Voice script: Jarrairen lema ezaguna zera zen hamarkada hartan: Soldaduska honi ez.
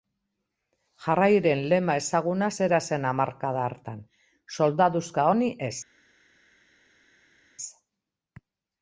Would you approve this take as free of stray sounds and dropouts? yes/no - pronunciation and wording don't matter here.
yes